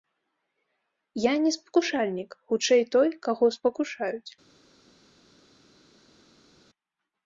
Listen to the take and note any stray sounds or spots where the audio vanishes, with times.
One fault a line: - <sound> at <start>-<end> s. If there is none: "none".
none